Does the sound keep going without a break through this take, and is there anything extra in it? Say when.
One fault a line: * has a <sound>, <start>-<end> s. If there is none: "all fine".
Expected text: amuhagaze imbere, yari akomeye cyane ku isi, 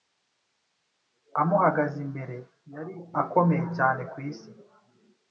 all fine